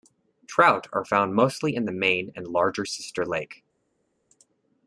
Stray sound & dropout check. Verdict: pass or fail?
pass